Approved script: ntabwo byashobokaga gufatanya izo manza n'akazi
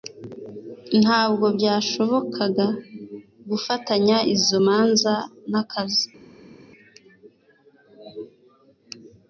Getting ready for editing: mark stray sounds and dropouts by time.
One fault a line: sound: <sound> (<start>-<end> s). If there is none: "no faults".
no faults